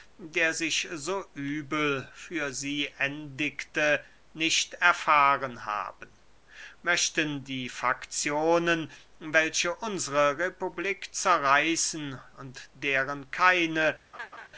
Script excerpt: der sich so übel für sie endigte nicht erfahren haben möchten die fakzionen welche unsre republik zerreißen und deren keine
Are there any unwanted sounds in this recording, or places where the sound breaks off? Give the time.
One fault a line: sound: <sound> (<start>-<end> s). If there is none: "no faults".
sound: laugh (14.1-14.5 s)